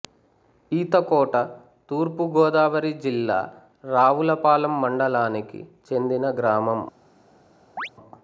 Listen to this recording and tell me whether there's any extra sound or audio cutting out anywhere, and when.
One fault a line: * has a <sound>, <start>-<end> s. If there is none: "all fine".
* has a chirp, 7.8-7.9 s